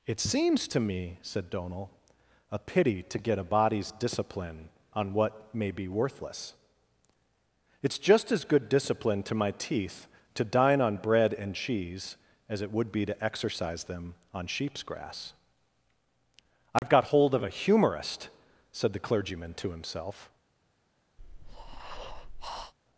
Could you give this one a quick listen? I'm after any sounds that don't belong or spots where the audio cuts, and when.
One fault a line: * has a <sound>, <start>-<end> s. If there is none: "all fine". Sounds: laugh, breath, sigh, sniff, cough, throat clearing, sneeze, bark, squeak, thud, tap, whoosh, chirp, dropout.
* has a dropout, 16.8-16.8 s
* has a breath, 21.2-22.7 s